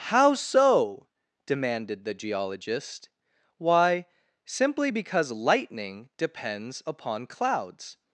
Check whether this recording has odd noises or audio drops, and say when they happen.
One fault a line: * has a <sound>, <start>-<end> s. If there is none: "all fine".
all fine